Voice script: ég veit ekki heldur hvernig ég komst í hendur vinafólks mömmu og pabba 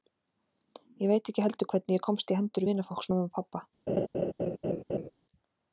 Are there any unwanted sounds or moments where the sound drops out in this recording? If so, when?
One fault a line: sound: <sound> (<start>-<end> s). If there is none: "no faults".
sound: laugh (3.9-5.1 s)